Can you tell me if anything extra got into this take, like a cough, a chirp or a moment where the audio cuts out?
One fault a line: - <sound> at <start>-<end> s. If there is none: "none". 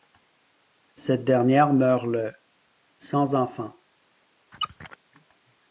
- squeak at 4.5-5.0 s